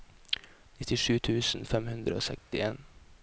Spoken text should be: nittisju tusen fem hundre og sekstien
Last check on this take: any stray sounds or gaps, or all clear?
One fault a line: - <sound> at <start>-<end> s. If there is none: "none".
- dropout at 2.4-2.5 s